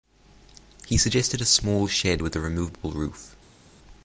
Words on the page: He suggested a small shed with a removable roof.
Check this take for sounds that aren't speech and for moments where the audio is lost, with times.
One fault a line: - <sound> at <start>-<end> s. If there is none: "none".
none